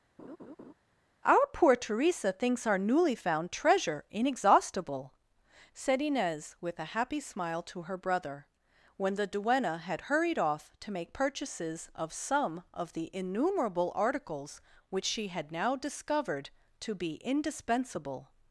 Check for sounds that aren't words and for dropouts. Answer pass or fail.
fail